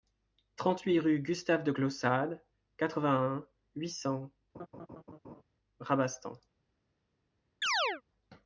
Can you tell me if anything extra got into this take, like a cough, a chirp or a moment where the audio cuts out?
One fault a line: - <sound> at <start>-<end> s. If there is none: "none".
- laugh at 4.5-5.4 s
- chirp at 7.6-8.0 s